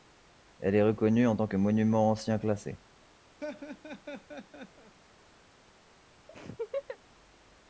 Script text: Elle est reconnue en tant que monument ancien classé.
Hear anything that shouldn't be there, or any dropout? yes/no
yes